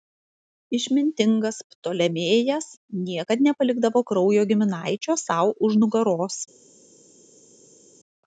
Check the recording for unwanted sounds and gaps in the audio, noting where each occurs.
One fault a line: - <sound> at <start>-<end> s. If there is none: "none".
none